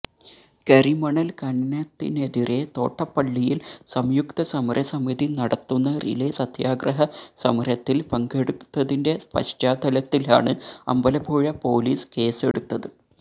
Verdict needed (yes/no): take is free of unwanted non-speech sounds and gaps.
no